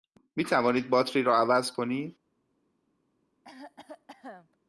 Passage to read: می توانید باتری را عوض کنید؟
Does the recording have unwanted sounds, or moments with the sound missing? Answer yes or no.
yes